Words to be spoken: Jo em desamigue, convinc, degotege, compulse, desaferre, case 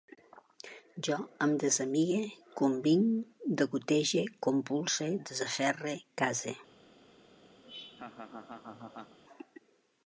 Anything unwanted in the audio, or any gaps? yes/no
yes